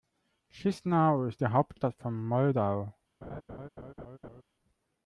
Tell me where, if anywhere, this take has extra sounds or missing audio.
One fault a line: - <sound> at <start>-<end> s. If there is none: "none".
- laugh at 3.2-4.4 s